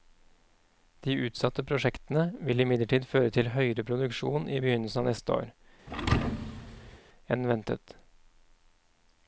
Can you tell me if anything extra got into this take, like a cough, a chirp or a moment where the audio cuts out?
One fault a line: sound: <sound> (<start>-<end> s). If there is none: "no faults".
sound: thud (5.9-7.0 s)